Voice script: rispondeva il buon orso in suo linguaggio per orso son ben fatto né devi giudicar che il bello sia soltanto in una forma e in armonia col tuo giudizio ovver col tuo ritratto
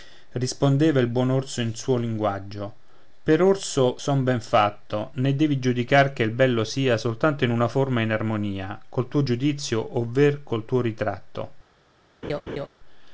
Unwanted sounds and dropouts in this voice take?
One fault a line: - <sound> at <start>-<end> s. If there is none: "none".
- laugh at 12.2-12.7 s